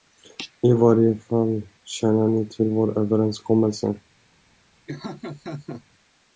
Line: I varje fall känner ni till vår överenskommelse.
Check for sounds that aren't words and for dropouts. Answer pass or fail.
fail